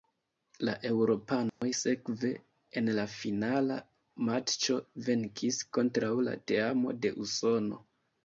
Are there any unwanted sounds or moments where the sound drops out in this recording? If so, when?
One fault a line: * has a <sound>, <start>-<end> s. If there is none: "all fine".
* has a dropout, 1.5-1.6 s